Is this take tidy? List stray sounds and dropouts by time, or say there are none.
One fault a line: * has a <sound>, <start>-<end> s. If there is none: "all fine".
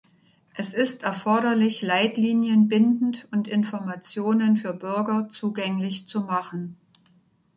all fine